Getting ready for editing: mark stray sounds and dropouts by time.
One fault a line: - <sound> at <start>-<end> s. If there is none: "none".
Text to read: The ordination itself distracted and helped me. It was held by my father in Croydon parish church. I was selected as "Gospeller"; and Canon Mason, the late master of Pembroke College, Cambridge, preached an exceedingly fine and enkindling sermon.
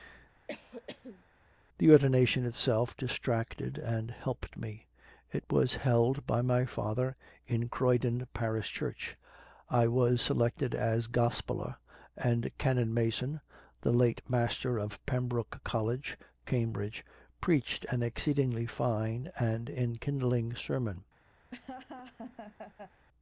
- cough at 0.5-1.2 s
- laugh at 21.5-23.1 s